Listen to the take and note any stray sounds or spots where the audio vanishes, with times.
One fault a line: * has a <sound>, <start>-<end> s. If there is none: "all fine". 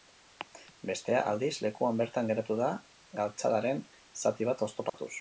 * has a dropout, 4.9-4.9 s